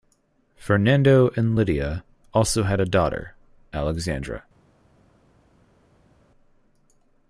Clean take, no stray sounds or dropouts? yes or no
yes